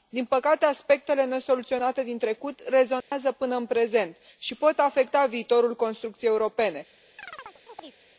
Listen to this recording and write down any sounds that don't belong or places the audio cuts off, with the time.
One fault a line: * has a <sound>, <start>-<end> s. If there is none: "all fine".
* has a dropout, 3.0-3.1 s
* has a chirp, 7.2-8.0 s